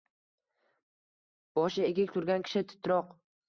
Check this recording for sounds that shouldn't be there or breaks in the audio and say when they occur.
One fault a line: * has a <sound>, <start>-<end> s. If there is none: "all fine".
all fine